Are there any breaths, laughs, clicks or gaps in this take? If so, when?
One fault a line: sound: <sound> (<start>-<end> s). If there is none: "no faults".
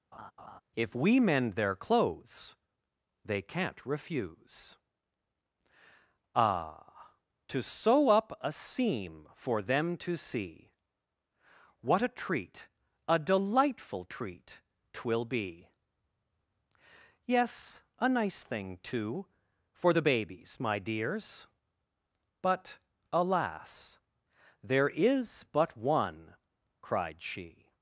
sound: laugh (0.1-0.6 s)